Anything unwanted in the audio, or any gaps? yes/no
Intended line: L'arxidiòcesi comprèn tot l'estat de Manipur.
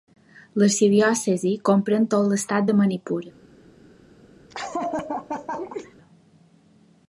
yes